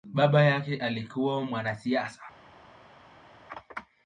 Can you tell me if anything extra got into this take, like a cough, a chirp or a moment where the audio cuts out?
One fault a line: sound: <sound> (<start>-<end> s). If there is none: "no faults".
no faults